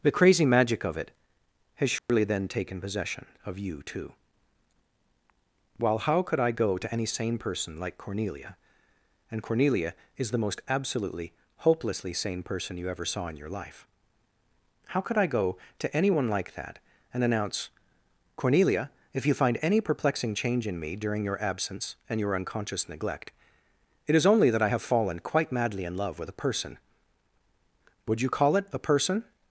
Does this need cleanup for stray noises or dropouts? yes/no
yes